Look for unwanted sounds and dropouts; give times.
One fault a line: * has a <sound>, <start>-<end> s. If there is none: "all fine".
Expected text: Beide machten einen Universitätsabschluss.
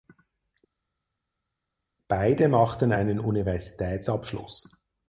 all fine